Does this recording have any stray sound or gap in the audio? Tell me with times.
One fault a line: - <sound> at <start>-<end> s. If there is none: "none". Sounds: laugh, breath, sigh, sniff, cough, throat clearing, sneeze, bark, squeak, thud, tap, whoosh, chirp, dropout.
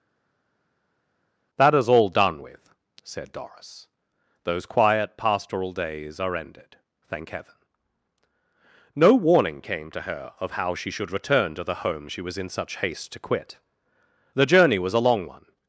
none